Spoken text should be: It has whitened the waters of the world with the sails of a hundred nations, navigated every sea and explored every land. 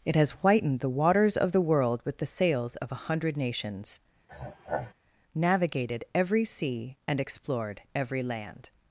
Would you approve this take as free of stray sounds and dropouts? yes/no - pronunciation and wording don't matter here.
no